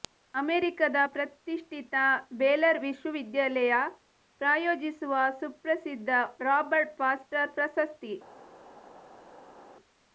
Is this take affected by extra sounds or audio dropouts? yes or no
no